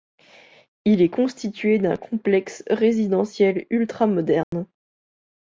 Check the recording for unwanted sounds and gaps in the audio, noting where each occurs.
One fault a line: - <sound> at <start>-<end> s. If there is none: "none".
- dropout at 4.4-4.5 s